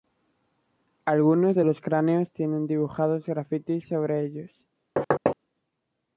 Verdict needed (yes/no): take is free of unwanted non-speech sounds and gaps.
no